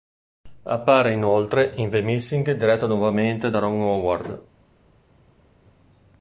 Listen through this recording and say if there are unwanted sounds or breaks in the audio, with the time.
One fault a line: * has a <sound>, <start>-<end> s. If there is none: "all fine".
all fine